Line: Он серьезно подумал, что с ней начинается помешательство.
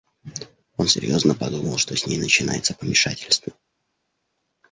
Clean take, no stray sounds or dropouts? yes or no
yes